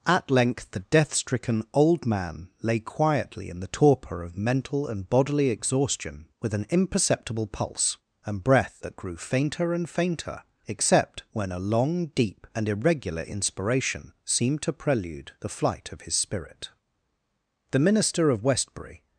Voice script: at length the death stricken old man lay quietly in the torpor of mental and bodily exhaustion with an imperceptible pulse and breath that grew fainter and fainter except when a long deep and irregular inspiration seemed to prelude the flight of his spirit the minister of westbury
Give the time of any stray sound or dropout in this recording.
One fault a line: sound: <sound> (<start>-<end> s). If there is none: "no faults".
no faults